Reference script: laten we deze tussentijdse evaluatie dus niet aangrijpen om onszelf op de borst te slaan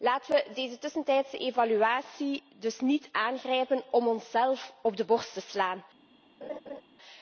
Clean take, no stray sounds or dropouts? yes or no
no